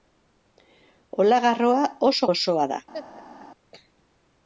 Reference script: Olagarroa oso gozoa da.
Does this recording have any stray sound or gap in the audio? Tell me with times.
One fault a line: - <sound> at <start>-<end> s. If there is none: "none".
- laugh at 2.9-3.5 s